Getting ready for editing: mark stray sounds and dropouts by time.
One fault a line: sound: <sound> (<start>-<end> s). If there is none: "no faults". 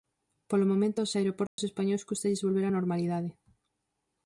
sound: dropout (1.5-1.6 s)